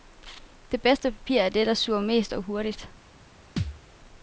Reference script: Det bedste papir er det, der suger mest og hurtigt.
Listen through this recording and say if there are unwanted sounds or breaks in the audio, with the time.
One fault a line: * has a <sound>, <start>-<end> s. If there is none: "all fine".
* has a thud, 3.6-3.8 s